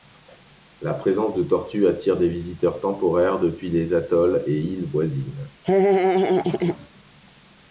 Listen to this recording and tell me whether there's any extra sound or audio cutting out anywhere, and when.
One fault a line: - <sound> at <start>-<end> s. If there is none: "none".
- laugh at 5.6-6.9 s